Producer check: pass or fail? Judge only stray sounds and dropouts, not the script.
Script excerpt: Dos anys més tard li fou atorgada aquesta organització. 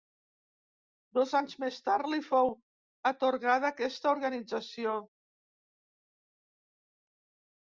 pass